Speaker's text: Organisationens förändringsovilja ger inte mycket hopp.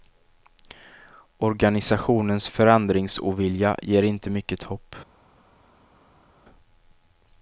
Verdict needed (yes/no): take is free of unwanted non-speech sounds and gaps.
yes